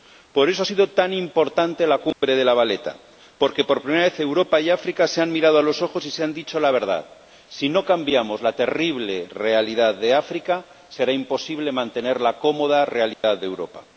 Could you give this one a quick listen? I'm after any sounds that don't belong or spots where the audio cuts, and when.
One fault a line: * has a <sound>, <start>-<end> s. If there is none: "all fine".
* has a dropout, 2.1-2.2 s
* has a dropout, 13.1-13.2 s